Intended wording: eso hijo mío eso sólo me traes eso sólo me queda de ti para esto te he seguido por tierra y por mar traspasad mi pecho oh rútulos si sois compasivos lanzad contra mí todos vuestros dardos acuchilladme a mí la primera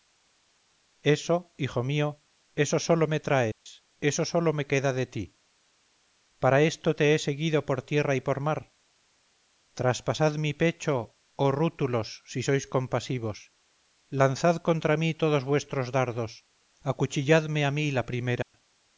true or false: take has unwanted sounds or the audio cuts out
true